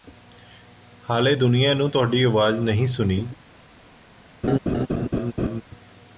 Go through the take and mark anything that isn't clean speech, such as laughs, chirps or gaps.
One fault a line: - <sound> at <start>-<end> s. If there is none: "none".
- laugh at 4.4-5.6 s